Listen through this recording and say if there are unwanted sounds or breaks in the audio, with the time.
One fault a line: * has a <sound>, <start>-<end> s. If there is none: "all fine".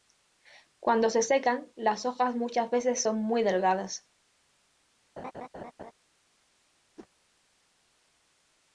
* has a laugh, 5.2-5.9 s
* has a whoosh, 7.0-7.1 s